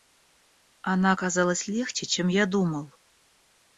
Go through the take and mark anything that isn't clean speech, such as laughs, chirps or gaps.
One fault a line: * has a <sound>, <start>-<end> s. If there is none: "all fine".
all fine